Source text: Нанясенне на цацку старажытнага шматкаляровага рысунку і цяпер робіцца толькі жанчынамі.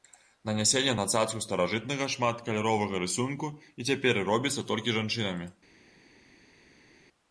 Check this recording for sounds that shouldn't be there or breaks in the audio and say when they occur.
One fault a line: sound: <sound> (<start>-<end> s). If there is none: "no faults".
no faults